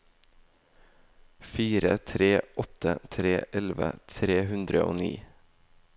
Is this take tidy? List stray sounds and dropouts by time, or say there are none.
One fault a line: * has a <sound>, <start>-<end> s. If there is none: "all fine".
all fine